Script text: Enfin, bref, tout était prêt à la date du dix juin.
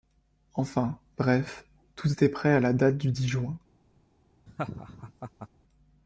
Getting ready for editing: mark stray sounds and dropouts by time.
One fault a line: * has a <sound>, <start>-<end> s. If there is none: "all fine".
* has a laugh, 4.5-5.5 s